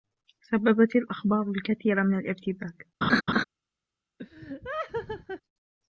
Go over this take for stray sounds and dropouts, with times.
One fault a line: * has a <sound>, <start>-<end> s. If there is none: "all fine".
* has a laugh, 3.0-3.4 s
* has a laugh, 4.2-5.4 s